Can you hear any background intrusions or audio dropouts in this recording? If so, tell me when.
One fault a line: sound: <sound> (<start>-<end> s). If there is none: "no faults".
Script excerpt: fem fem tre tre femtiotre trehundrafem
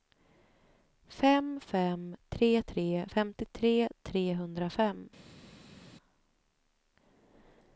no faults